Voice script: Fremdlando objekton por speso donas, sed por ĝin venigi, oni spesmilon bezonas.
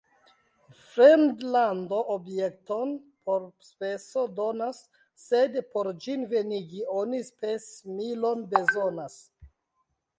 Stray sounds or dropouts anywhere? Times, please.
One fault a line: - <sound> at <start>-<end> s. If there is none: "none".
none